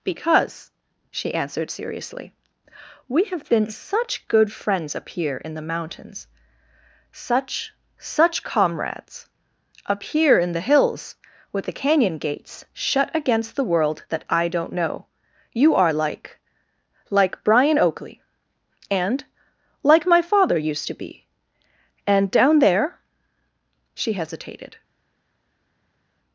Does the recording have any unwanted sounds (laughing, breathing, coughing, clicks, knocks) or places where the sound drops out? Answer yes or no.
no